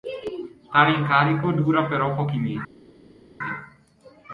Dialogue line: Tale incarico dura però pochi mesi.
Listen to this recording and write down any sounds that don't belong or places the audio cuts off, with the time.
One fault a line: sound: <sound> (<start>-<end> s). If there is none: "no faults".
no faults